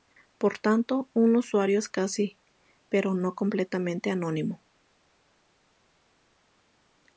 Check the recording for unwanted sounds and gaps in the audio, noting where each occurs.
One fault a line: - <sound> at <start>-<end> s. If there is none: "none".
none